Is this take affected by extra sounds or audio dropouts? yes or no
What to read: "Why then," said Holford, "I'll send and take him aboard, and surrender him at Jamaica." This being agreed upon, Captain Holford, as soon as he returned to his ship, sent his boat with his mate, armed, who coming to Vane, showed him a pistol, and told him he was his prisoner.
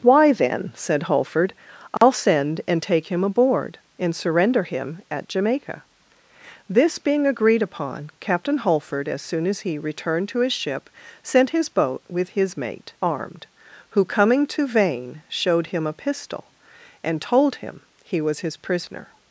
yes